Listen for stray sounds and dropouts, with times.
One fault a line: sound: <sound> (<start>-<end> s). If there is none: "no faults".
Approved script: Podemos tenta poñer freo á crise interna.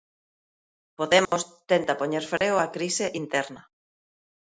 sound: dropout (1.3-1.3 s)
sound: dropout (2.4-2.4 s)